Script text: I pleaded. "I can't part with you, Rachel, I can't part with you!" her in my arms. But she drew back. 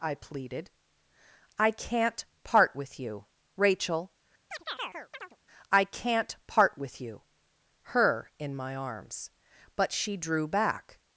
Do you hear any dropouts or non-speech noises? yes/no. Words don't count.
yes